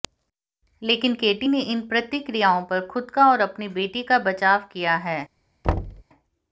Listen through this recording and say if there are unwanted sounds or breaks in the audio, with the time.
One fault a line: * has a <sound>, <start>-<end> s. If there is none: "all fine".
* has a thud, 5.6-6.0 s